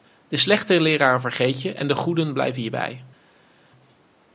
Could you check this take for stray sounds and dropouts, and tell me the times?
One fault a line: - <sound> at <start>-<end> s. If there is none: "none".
none